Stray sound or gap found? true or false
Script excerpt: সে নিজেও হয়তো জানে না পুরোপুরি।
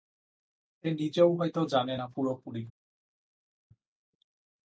false